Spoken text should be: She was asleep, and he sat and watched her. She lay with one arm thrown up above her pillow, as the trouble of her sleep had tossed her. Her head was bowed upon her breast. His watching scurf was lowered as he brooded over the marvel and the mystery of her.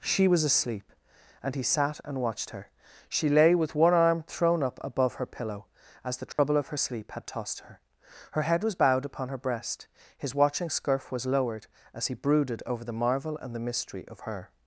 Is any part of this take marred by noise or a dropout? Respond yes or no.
yes